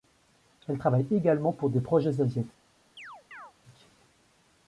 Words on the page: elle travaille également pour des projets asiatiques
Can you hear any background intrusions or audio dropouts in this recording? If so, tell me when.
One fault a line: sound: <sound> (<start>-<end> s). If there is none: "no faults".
sound: chirp (3.0-3.5 s)